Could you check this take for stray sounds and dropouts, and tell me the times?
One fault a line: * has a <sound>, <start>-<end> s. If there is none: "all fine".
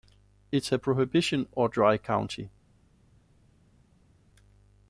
all fine